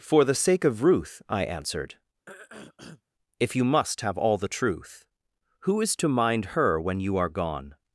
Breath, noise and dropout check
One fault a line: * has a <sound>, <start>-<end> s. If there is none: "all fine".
* has a throat clearing, 2.3-3.0 s